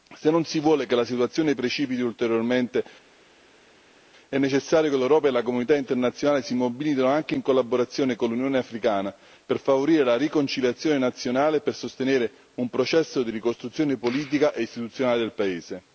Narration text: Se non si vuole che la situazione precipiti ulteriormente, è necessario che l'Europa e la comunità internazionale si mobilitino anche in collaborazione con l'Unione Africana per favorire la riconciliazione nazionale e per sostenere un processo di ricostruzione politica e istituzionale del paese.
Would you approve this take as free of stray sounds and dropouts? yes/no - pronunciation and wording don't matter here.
yes